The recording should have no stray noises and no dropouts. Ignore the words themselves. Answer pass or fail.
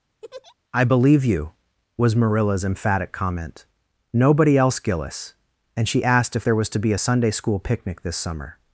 fail